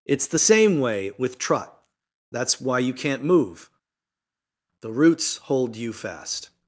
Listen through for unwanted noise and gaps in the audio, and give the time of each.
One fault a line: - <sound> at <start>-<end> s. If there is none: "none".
none